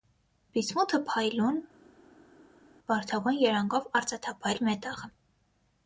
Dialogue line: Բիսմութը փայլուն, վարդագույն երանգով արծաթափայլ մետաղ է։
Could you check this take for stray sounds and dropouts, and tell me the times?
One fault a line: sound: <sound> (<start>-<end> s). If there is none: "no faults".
no faults